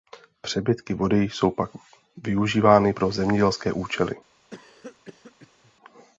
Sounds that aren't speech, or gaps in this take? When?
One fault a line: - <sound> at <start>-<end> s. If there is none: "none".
- cough at 4.5-5.7 s